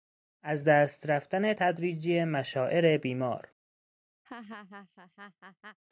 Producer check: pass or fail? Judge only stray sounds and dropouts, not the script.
fail